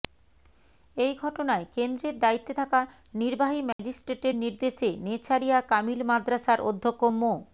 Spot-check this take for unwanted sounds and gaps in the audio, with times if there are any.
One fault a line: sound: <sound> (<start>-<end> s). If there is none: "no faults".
sound: dropout (3.7-3.8 s)